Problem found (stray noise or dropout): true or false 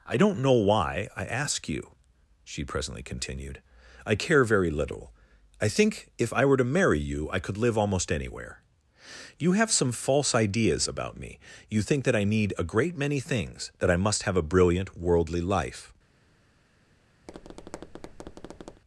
true